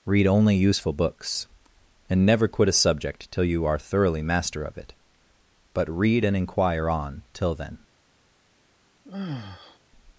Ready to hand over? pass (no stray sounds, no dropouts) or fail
fail